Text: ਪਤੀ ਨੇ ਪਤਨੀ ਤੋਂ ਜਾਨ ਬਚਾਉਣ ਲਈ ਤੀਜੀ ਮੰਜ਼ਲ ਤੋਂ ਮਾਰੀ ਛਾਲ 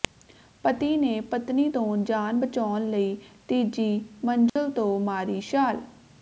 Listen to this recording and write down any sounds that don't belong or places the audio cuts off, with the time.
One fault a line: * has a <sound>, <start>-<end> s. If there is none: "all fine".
* has a dropout, 4.5-4.6 s